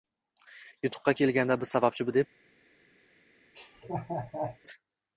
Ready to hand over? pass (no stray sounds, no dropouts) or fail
fail